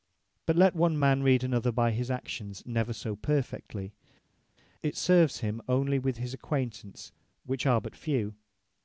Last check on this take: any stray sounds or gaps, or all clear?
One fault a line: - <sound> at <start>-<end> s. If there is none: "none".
none